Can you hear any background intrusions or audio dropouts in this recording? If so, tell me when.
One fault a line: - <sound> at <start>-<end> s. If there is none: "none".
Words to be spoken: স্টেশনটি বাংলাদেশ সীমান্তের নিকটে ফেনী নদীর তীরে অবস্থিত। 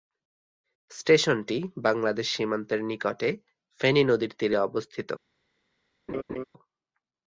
- laugh at 6.1-6.4 s